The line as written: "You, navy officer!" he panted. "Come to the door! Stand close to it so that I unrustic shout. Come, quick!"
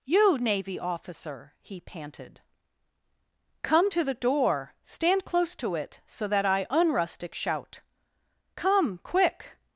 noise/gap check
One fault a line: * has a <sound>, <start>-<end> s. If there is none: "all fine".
all fine